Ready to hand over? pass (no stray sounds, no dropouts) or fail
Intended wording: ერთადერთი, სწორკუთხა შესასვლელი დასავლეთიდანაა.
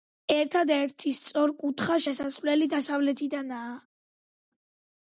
pass